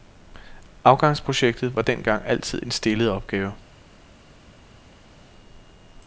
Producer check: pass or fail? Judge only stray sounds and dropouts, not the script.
pass